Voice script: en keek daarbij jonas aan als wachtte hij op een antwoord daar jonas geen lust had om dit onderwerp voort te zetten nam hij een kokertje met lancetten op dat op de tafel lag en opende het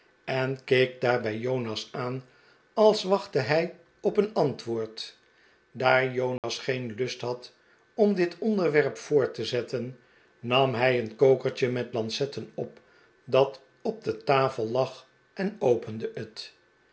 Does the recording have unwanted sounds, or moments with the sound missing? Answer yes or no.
yes